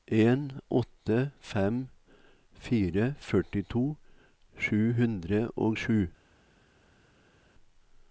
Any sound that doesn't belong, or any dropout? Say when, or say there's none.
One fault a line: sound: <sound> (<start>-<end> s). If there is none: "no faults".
no faults